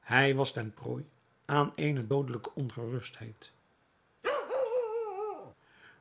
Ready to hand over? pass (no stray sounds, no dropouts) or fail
fail